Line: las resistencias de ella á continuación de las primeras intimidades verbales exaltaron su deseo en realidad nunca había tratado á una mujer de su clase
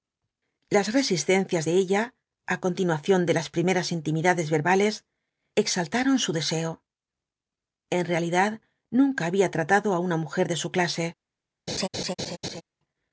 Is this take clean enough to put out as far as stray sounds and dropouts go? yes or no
no